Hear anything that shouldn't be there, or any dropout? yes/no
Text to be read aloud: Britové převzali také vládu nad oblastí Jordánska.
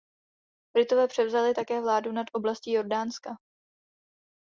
no